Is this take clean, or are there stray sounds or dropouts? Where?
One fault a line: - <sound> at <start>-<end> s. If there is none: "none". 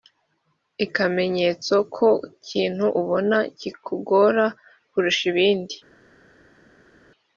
none